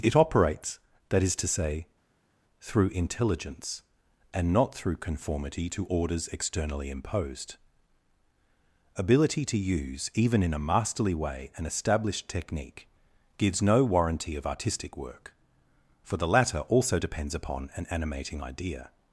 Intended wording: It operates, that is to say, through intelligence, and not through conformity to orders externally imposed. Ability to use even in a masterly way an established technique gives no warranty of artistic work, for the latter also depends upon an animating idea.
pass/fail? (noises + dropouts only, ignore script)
pass